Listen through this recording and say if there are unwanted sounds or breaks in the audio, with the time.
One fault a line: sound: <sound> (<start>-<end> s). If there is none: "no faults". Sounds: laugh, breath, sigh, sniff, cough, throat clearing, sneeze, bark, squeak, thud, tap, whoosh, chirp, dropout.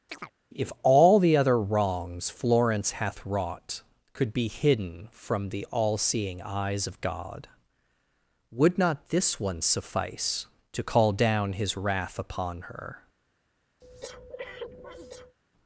sound: chirp (0.1-0.3 s)
sound: breath (13.8-15.4 s)